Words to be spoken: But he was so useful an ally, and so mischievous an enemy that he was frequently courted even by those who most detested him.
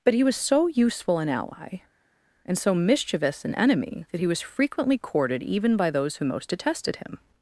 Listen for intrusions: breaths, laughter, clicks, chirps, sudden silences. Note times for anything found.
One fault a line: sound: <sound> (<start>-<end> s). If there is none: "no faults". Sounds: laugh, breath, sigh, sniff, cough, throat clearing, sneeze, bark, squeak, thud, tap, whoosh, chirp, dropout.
no faults